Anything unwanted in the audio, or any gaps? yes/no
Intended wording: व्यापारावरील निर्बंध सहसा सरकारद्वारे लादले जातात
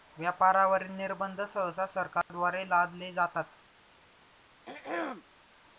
yes